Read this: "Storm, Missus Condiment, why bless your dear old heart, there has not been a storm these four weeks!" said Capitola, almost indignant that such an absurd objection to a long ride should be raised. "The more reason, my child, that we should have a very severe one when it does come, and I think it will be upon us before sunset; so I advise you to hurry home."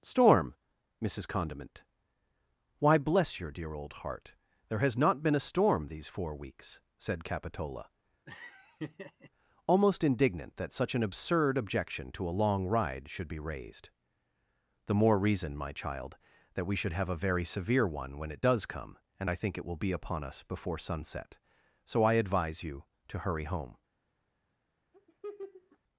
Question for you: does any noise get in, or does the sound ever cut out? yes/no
yes